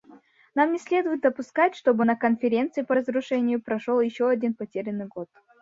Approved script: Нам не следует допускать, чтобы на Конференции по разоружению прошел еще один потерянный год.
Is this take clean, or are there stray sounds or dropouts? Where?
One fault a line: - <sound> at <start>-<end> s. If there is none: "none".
none